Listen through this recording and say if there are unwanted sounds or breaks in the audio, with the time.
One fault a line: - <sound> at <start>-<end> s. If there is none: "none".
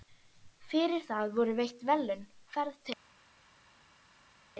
none